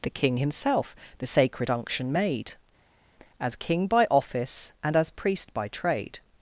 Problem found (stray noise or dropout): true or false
false